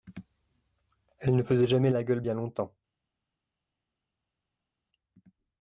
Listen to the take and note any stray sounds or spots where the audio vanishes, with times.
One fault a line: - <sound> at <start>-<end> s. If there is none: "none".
none